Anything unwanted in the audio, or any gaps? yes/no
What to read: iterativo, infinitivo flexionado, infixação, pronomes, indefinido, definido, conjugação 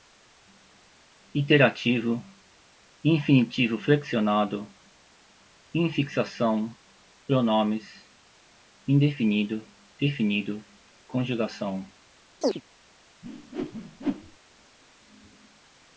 yes